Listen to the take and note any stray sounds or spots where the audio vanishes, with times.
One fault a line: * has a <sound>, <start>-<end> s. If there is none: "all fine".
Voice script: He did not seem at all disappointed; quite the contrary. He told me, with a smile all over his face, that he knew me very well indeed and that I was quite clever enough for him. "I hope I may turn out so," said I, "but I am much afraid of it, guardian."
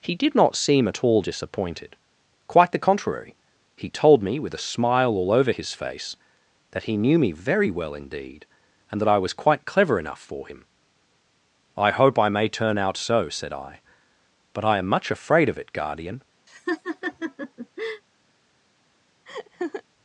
* has a laugh, 16.5-18.0 s
* has a laugh, 19.3-19.8 s